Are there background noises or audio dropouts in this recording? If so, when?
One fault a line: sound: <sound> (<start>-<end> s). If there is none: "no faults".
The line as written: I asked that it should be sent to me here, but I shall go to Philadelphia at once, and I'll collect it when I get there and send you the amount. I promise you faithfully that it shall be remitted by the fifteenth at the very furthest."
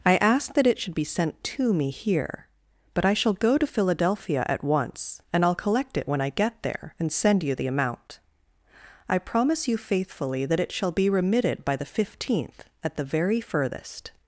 no faults